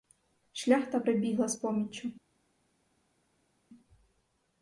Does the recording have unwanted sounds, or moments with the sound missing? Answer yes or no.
no